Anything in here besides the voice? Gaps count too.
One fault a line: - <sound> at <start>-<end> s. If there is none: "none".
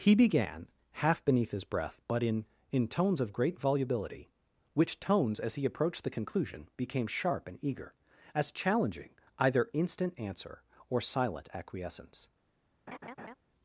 - laugh at 12.9-13.3 s